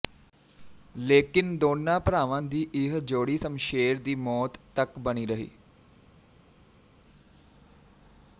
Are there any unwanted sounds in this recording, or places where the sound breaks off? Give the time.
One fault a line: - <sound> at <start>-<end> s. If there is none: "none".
none